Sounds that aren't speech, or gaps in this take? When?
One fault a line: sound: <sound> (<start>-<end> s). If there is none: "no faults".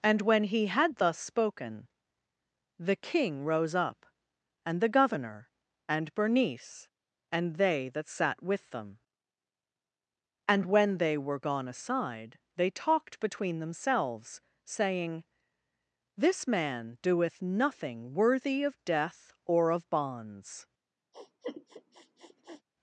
sound: sniff (21.1-22.6 s)